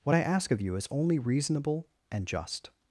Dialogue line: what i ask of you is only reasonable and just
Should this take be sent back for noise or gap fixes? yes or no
no